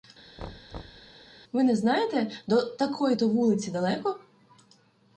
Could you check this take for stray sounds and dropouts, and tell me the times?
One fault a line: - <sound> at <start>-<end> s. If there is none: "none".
- thud at 0.4-1.1 s